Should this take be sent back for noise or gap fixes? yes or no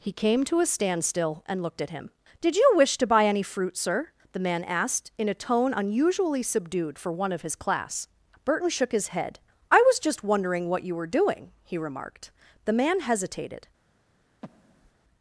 yes